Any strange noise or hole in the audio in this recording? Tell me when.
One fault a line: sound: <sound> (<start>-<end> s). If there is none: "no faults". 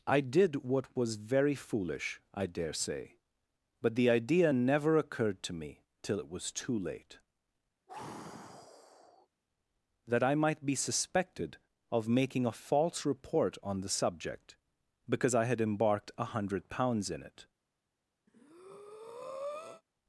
sound: sigh (7.9-9.3 s)
sound: breath (18.3-19.8 s)